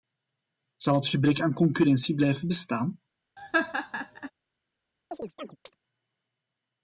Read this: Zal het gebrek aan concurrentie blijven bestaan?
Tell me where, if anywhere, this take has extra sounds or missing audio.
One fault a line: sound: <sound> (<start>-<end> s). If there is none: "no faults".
sound: laugh (3.4-4.3 s)
sound: chirp (5.1-5.7 s)